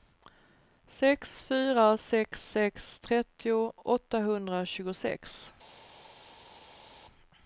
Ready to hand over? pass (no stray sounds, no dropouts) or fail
pass